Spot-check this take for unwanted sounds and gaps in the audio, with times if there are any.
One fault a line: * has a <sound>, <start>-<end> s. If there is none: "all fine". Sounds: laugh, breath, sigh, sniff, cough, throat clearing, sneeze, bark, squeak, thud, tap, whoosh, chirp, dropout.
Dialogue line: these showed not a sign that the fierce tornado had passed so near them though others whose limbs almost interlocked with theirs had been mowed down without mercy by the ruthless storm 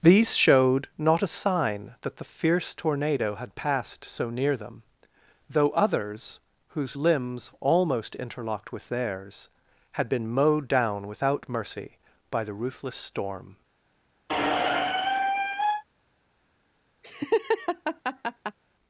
* has a squeak, 14.3-15.8 s
* has a laugh, 17.0-18.6 s